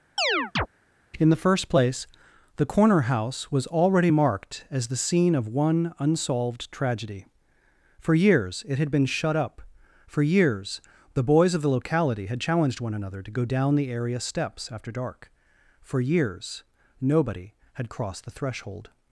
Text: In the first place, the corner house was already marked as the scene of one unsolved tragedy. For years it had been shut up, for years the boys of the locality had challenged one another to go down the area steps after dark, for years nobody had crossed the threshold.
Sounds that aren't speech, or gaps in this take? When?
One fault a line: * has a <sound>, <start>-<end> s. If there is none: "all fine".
* has a chirp, 0.2-0.7 s